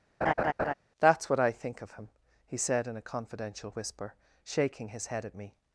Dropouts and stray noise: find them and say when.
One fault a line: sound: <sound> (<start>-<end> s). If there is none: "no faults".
sound: laugh (0.2-0.7 s)